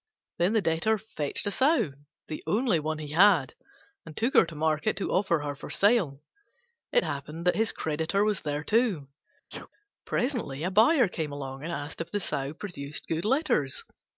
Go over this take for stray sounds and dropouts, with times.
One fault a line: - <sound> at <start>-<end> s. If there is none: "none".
- sneeze at 9.5-9.7 s